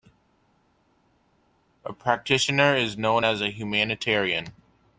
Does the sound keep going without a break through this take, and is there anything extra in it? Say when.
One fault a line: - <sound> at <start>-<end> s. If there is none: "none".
none